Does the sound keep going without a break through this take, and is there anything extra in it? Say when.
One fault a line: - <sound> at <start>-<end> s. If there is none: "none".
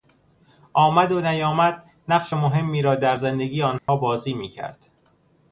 - dropout at 3.8-3.9 s